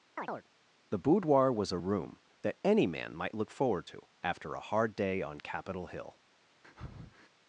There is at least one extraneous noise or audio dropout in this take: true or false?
true